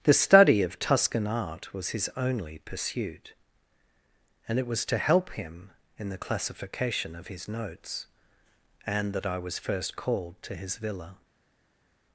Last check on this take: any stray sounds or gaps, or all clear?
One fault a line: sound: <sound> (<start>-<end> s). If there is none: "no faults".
no faults